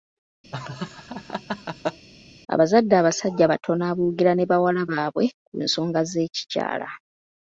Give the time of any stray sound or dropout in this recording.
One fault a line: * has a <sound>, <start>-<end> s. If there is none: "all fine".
* has a laugh, 0.5-2.1 s